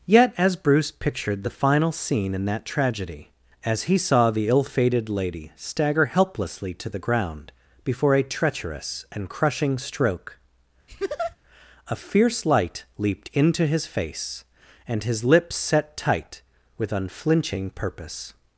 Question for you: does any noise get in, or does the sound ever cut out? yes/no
yes